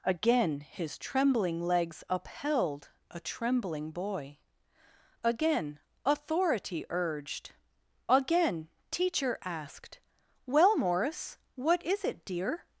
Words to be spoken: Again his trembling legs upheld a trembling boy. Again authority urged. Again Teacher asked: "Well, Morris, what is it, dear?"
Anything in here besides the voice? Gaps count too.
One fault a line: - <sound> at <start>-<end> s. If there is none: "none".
none